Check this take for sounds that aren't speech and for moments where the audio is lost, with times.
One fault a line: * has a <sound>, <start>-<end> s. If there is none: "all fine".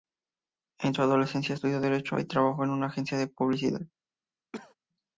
* has a cough, 4.5-4.8 s